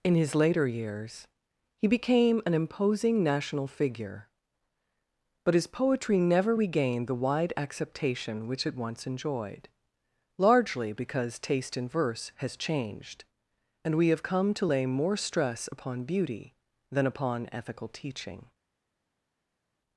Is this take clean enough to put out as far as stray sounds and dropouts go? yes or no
yes